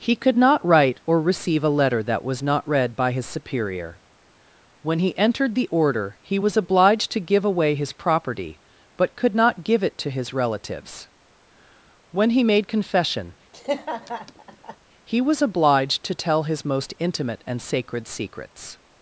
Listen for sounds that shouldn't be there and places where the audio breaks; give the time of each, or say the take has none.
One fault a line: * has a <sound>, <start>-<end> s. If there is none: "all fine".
* has a laugh, 13.5-14.8 s